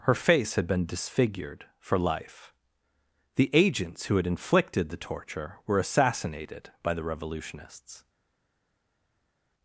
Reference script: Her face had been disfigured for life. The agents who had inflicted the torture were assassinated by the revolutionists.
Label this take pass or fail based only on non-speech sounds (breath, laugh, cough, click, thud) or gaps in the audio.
pass